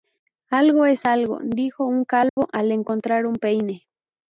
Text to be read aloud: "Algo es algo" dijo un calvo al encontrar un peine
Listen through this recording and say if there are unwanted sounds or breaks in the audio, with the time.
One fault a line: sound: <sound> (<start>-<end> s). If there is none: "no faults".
sound: dropout (2.3-2.4 s)